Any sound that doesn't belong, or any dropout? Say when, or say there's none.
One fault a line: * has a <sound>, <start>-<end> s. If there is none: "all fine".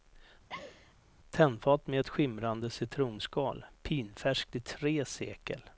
* has a laugh, 0.5-0.9 s